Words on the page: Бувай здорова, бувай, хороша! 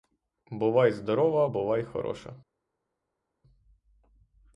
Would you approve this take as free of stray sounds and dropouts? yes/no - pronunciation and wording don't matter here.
yes